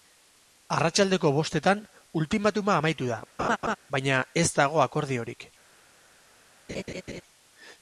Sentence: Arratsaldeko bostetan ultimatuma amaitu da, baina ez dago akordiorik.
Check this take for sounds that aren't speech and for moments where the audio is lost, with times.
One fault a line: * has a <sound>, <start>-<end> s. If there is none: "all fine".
* has a laugh, 3.4-3.8 s
* has a laugh, 6.7-7.2 s